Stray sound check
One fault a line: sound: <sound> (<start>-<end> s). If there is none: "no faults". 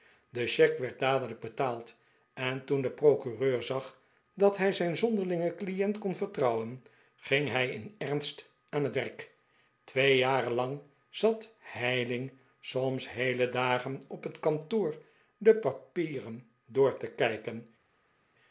no faults